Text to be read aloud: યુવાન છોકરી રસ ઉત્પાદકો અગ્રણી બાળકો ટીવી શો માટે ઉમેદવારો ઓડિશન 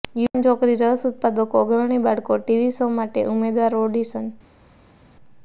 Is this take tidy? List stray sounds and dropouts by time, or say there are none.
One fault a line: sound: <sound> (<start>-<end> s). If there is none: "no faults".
no faults